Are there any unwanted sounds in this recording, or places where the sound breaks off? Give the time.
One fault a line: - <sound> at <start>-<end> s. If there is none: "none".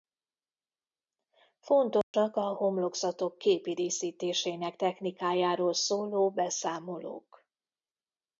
- dropout at 2.0-2.1 s